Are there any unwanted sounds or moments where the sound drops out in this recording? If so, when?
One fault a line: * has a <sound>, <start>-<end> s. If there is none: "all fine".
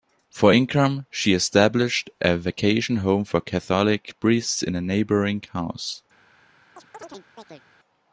* has a chirp, 6.8-7.6 s